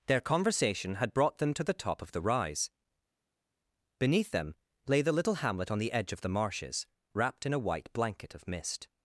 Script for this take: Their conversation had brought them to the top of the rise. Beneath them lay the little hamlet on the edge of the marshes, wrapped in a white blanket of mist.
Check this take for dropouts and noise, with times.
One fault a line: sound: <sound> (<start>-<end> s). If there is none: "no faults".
no faults